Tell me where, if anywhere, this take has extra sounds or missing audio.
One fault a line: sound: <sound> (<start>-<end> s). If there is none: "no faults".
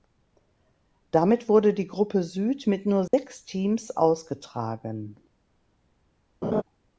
sound: dropout (3.1-3.1 s)
sound: laugh (6.4-6.6 s)